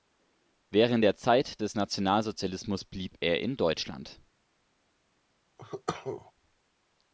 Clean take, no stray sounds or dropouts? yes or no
no